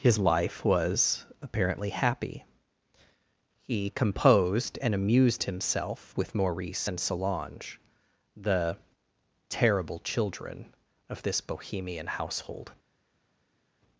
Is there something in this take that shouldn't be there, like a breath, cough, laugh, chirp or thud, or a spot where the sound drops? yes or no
no